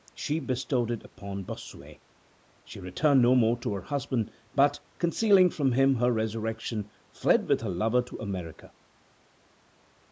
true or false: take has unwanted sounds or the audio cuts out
false